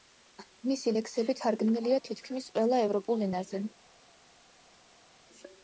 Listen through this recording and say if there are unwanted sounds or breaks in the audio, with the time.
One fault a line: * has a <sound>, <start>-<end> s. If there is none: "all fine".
all fine